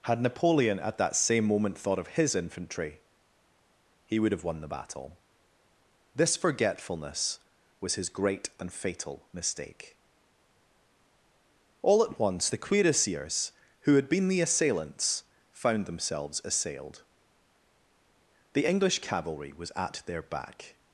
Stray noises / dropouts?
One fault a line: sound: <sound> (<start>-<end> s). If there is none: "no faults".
no faults